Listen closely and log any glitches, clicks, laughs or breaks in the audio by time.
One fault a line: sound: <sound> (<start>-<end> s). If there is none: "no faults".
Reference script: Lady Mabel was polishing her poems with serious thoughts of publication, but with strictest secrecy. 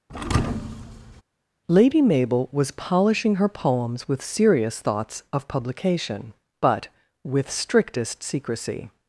sound: thud (0.1-1.2 s)